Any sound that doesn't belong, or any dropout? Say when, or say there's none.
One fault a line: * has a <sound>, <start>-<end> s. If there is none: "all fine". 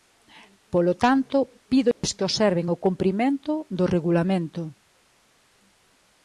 * has a dropout, 1.9-2.0 s